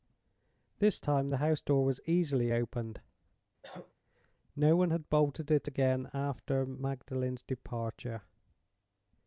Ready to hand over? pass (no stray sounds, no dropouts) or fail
fail